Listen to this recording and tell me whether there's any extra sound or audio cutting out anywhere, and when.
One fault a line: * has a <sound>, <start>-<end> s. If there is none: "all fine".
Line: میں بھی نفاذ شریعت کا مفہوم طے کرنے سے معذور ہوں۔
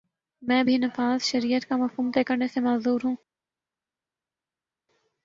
all fine